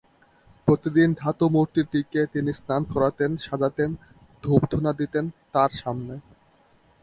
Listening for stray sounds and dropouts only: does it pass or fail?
pass